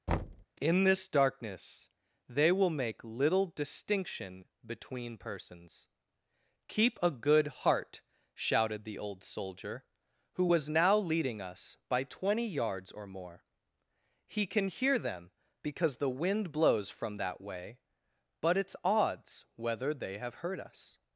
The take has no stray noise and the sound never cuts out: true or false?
false